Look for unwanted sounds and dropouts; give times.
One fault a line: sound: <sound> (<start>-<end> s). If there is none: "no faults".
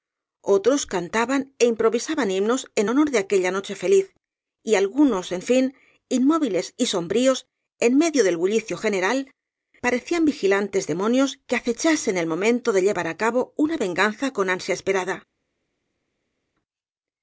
no faults